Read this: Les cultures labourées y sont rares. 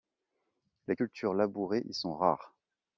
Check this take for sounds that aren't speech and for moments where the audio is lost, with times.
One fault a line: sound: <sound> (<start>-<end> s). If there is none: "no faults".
no faults